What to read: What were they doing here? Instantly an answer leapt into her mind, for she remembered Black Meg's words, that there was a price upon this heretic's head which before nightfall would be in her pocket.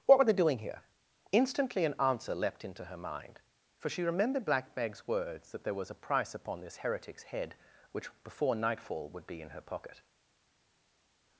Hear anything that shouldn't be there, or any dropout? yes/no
no